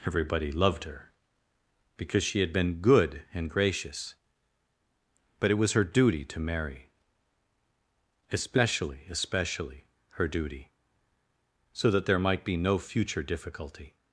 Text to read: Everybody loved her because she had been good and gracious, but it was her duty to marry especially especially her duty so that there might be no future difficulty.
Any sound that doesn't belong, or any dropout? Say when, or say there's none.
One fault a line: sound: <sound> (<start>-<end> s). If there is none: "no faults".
no faults